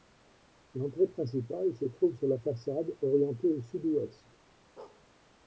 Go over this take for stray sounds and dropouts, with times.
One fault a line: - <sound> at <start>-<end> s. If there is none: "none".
- bark at 4.8-5.1 s